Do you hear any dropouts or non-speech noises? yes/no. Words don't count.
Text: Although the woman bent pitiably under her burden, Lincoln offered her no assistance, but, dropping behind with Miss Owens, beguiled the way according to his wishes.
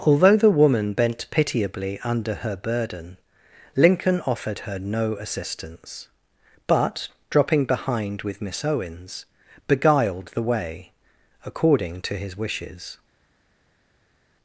no